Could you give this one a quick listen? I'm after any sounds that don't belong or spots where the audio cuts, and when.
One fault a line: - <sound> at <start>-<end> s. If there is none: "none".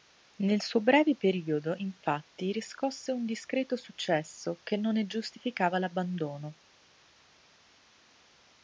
none